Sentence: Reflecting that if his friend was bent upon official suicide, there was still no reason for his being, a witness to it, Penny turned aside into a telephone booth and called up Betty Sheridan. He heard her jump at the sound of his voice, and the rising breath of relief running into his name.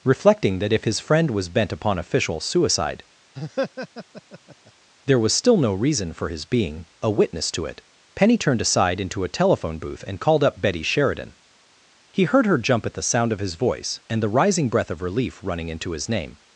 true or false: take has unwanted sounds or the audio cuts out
true